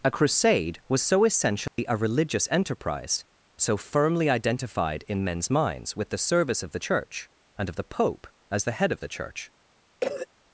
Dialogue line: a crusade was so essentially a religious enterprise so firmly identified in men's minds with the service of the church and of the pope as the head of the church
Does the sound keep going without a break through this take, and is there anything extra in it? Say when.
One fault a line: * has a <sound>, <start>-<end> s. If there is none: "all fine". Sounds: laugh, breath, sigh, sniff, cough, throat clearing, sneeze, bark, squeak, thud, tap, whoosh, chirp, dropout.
* has a dropout, 1.7-1.8 s
* has a cough, 10.0-10.3 s